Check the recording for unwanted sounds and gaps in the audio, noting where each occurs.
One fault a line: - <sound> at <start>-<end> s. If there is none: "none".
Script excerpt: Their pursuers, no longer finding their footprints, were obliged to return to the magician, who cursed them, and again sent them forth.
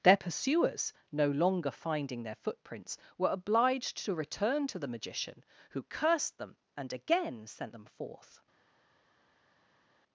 none